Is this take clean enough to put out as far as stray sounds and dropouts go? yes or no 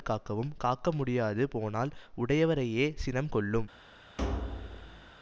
no